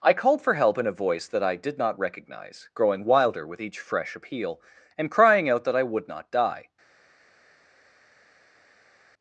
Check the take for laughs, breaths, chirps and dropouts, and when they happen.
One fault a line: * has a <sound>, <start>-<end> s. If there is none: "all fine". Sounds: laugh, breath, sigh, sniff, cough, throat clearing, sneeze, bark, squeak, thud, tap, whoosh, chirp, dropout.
all fine